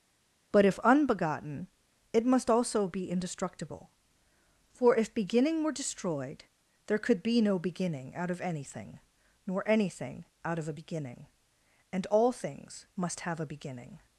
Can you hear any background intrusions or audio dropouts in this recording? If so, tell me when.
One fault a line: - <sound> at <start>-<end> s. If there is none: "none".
none